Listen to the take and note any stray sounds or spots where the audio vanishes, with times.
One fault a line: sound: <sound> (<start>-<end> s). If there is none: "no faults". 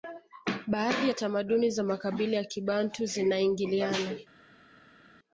no faults